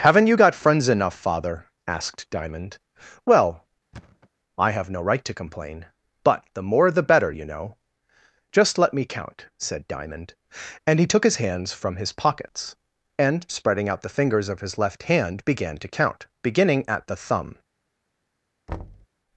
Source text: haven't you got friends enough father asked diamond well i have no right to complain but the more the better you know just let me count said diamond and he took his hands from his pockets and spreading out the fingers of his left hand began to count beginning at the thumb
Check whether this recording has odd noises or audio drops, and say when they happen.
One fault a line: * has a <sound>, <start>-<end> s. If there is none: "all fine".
* has a thud, 3.9-4.3 s
* has a thud, 18.7-19.1 s